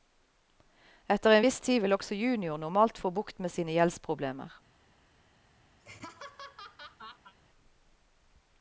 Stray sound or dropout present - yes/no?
yes